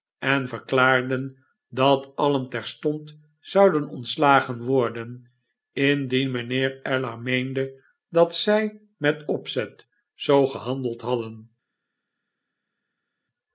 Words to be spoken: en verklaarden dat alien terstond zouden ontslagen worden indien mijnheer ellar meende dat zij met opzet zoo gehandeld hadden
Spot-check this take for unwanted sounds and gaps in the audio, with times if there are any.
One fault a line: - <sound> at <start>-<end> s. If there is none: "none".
none